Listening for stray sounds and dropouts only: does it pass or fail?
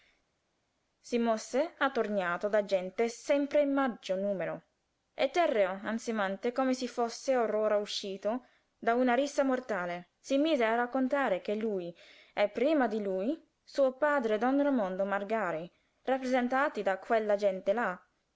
pass